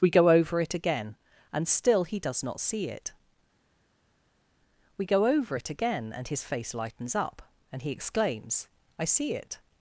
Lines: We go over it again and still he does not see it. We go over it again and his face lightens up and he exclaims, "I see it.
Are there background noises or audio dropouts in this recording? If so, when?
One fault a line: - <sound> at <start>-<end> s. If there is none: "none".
none